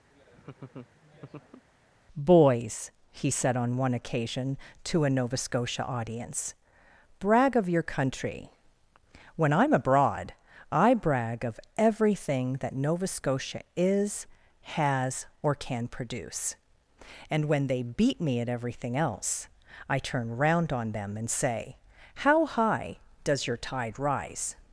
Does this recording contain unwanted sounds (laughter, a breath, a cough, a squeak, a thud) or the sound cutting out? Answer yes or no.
yes